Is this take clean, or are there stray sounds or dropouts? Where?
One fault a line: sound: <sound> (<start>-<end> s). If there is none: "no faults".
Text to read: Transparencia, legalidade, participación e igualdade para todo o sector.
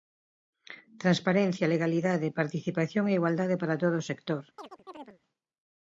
sound: chirp (4.6-5.2 s)